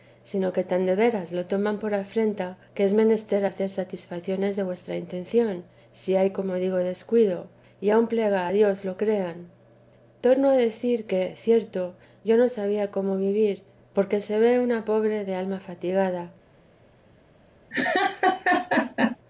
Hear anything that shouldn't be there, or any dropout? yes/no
yes